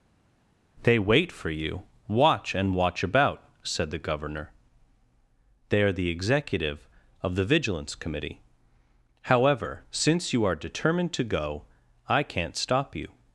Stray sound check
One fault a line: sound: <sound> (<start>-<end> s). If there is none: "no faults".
no faults